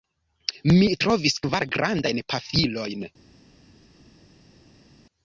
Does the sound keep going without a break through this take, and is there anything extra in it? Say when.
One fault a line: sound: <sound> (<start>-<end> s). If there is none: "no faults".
no faults